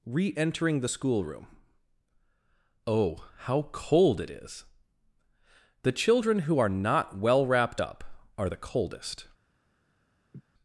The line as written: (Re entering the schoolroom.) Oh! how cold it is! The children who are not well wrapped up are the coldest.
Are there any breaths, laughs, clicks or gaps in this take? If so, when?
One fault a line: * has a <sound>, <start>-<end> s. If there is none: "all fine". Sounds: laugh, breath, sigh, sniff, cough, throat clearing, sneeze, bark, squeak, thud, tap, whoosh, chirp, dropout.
* has a laugh, 10.3-10.4 s